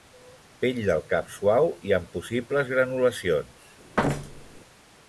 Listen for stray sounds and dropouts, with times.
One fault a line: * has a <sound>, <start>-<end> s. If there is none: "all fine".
* has a thud, 4.0-4.6 s